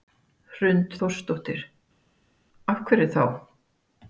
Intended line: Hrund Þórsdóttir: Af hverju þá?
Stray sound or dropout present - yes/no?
no